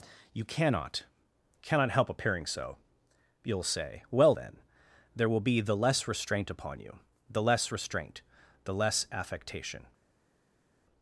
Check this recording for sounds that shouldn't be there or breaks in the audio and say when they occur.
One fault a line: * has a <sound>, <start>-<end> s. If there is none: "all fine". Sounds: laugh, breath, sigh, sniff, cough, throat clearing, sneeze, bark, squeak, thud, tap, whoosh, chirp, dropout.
all fine